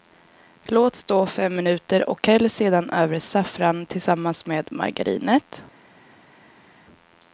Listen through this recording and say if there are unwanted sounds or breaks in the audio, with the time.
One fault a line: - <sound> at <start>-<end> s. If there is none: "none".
none